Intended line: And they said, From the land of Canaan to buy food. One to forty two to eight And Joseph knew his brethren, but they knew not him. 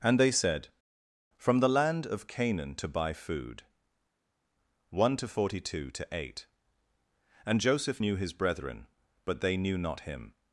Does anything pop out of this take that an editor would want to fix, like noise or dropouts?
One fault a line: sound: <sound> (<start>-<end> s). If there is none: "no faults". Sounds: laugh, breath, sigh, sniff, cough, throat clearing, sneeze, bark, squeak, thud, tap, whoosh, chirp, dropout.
no faults